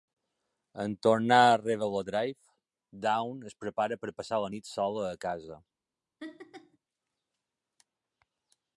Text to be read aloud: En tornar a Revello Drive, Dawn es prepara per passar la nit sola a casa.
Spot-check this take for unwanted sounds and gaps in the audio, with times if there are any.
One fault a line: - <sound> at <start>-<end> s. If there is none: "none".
- laugh at 6.2-6.8 s